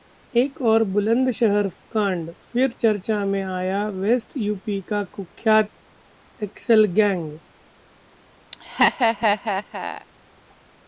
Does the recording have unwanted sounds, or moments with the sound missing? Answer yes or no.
yes